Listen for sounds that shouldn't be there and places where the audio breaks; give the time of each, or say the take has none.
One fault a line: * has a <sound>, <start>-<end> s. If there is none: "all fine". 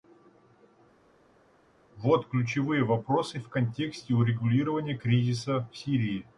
all fine